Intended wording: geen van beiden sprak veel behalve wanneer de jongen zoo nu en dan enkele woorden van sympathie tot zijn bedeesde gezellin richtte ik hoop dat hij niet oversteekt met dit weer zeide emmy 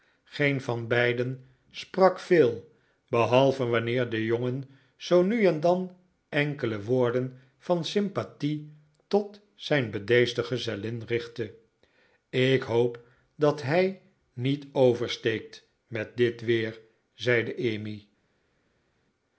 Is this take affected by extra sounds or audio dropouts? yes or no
no